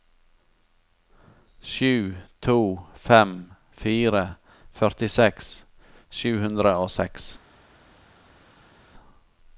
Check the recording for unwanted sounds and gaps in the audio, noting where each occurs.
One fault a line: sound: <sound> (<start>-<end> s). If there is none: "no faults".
no faults